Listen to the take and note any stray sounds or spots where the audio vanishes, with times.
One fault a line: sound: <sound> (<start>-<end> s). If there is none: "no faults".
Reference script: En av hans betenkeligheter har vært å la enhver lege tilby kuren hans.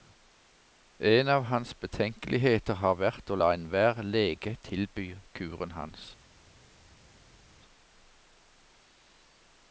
no faults